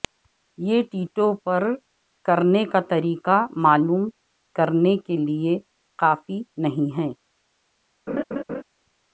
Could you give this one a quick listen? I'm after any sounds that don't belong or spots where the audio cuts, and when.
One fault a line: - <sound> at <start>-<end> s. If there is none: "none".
- laugh at 8.1-8.6 s